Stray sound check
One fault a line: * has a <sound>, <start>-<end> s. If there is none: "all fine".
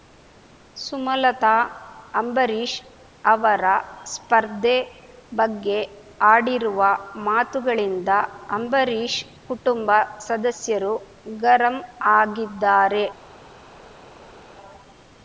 all fine